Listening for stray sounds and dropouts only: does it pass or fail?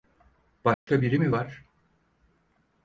fail